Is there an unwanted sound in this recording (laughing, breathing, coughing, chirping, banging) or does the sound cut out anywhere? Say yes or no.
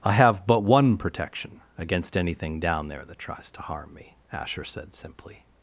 no